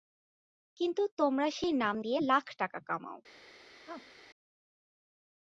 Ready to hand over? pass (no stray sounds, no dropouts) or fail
fail